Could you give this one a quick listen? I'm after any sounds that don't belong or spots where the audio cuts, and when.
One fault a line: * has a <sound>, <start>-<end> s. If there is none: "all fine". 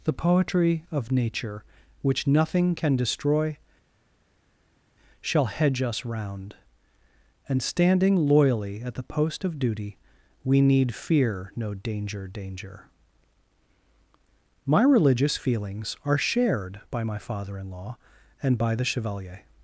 all fine